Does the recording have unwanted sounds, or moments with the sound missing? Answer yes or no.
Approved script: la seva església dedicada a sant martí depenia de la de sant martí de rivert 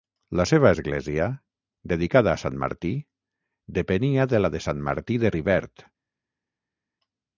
no